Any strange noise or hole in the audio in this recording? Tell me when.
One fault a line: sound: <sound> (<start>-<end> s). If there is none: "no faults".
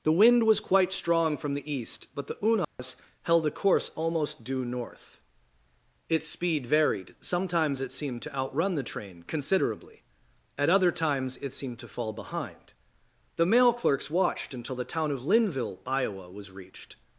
sound: dropout (2.6-2.8 s)